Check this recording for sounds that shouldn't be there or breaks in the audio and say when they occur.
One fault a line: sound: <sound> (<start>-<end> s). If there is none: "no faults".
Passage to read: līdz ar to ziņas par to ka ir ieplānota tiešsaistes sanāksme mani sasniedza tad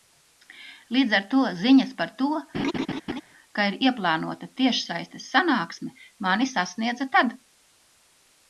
sound: laugh (2.5-3.2 s)